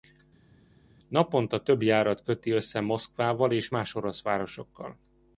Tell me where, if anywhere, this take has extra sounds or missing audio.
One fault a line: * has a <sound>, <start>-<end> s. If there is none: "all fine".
all fine